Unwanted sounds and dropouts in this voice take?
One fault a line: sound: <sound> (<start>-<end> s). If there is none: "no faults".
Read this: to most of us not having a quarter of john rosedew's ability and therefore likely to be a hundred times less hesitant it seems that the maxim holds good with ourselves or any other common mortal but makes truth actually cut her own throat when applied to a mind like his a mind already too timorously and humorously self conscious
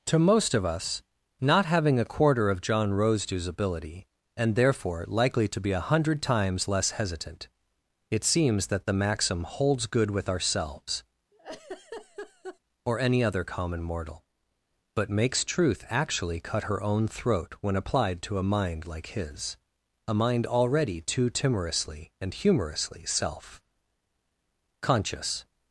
sound: laugh (11.3-12.6 s)